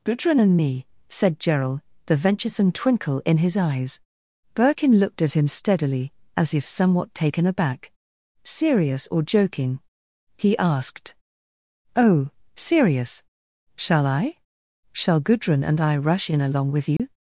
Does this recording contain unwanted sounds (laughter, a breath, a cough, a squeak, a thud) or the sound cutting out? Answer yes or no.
yes